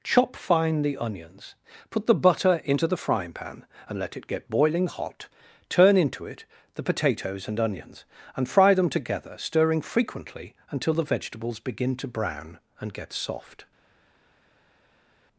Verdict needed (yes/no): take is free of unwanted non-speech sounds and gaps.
yes